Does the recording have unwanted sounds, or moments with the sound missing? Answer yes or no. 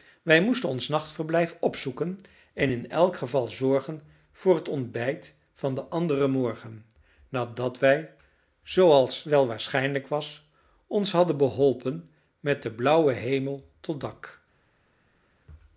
no